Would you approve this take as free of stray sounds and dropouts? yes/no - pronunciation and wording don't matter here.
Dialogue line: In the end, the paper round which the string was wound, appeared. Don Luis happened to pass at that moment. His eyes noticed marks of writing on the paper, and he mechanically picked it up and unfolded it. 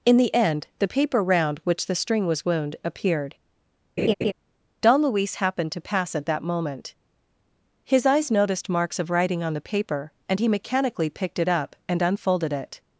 no